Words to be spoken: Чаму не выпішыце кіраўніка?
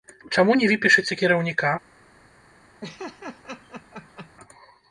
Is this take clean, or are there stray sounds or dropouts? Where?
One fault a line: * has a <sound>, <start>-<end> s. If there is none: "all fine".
* has a laugh, 2.8-4.3 s